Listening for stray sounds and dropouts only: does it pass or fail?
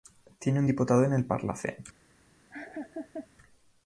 fail